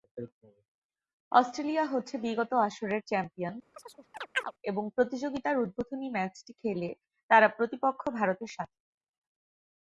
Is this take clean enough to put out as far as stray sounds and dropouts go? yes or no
no